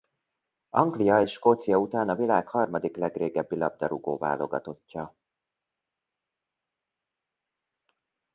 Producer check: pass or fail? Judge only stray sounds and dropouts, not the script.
pass